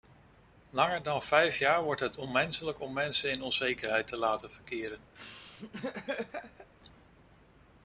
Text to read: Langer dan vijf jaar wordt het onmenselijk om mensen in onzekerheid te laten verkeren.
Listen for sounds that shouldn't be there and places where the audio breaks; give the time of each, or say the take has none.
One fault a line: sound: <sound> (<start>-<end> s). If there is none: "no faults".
sound: laugh (5.1-6.7 s)